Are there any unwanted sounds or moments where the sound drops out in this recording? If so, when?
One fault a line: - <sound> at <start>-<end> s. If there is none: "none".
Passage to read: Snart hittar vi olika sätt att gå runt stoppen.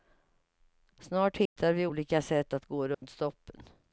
- dropout at 1.5-1.6 s
- dropout at 2.9-3.0 s